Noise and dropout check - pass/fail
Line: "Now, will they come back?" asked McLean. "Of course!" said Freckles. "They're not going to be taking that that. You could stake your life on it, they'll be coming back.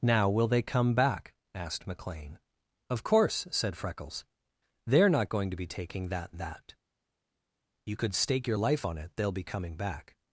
pass